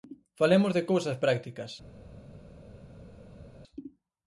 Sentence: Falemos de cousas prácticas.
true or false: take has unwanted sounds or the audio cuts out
false